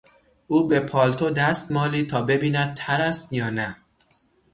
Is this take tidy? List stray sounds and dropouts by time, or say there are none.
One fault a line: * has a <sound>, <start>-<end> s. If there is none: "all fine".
all fine